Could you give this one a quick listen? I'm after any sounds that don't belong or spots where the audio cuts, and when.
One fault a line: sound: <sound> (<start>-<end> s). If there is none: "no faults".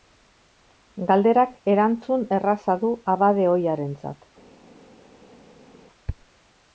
no faults